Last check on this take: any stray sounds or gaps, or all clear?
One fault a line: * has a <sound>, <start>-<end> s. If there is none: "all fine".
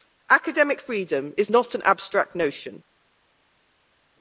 all fine